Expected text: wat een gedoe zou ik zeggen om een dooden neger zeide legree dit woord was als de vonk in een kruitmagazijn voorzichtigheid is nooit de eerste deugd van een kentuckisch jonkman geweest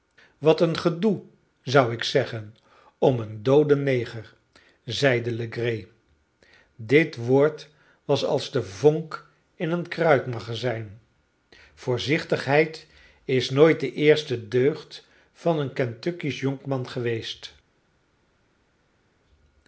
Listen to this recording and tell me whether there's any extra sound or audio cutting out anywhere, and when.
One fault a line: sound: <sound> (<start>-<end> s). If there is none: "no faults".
no faults